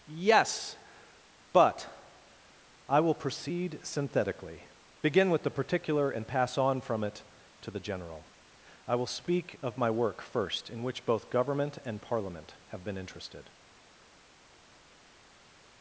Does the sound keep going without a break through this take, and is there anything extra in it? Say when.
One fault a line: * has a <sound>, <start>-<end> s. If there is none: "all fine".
all fine